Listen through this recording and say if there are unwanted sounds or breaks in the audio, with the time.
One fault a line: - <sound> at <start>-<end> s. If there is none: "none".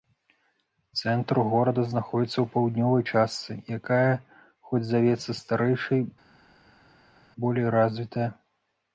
none